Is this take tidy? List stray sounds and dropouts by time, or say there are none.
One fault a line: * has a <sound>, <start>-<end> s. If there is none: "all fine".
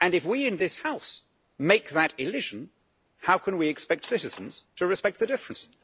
all fine